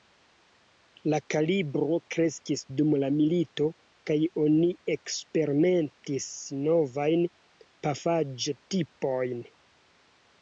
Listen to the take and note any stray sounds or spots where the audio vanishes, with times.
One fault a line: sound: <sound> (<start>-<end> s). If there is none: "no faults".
no faults